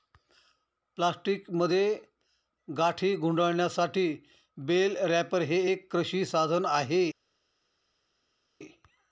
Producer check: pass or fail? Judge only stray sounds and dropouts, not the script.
pass